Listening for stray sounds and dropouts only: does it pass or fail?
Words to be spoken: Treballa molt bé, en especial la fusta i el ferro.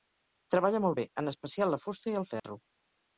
fail